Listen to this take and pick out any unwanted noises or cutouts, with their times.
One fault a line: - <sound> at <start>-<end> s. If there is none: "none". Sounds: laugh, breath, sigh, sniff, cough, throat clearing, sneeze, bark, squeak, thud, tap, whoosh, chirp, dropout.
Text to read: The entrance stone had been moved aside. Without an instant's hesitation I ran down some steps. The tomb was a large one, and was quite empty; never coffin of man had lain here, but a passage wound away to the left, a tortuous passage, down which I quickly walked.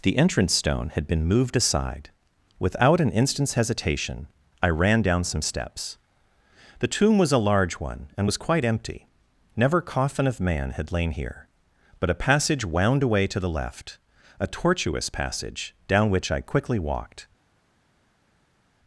none